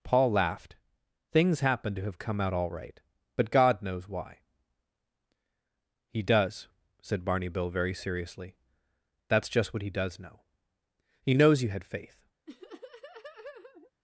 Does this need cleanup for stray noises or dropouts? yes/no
yes